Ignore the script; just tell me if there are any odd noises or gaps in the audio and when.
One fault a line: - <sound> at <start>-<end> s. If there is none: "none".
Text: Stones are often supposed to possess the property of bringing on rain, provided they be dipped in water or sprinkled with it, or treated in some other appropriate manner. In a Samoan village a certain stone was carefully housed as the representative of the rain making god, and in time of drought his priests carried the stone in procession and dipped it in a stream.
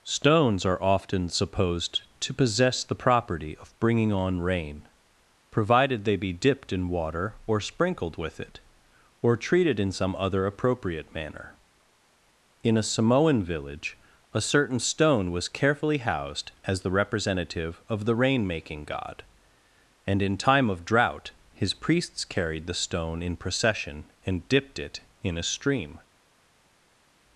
none